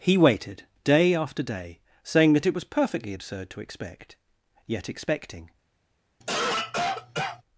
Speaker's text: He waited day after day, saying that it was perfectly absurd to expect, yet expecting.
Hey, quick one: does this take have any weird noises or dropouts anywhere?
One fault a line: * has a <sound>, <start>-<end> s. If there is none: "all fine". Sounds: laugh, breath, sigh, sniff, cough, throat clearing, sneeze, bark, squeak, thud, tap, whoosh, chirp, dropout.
* has a cough, 6.2-7.4 s